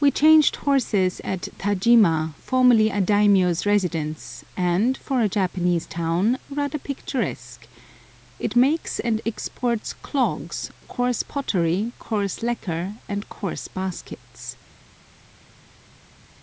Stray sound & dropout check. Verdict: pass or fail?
pass